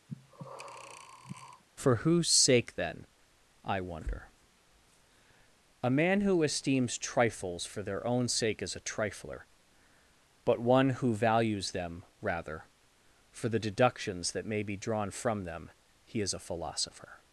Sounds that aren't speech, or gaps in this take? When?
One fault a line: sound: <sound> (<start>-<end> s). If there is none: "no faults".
sound: breath (0.1-1.6 s)